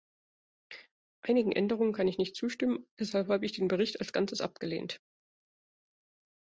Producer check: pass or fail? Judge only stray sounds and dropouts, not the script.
pass